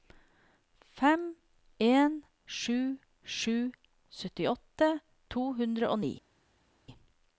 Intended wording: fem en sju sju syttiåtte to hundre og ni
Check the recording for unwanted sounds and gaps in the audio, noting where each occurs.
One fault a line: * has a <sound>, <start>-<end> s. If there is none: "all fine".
all fine